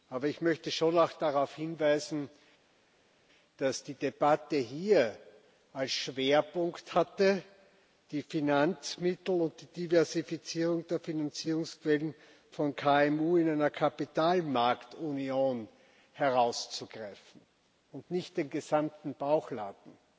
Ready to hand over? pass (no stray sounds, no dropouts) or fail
pass